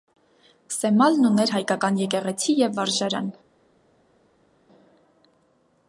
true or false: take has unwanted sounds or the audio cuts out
false